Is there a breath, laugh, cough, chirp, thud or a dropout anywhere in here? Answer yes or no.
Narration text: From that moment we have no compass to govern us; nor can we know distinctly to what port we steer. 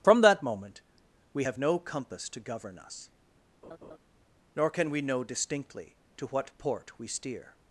yes